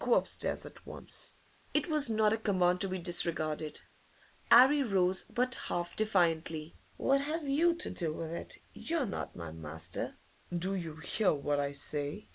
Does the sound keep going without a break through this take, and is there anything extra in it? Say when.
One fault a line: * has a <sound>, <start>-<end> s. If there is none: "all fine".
all fine